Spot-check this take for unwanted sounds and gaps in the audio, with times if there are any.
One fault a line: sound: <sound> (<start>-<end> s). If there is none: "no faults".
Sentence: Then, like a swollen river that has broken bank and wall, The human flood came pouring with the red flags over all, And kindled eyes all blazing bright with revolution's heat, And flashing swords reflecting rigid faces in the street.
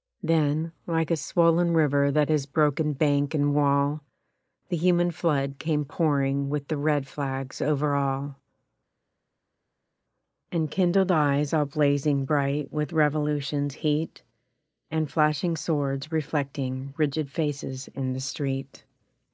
no faults